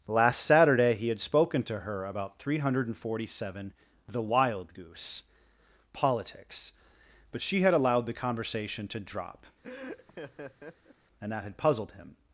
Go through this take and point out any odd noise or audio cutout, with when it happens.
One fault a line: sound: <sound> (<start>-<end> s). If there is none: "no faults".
sound: laugh (9.6-11.0 s)